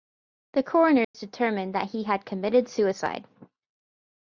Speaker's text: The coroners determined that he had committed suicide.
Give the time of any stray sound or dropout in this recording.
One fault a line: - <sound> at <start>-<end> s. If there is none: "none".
- dropout at 1.0-1.1 s